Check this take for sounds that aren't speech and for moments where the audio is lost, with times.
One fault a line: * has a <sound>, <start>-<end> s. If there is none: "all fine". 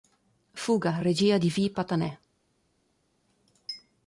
all fine